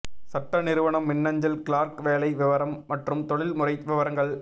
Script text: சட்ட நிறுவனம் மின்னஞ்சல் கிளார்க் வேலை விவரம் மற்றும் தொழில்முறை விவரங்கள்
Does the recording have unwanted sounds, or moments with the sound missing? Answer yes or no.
no